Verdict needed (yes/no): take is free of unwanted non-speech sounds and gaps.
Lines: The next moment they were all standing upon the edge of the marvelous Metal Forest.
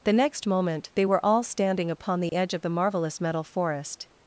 no